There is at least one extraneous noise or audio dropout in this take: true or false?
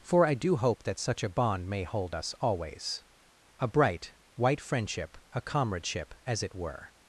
false